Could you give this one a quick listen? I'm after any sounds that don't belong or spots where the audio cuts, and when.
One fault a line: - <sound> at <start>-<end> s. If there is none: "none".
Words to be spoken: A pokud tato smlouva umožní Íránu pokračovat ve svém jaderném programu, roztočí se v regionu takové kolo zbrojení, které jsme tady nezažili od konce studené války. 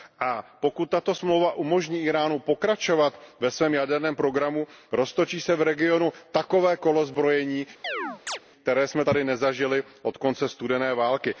- chirp at 7.8-8.4 s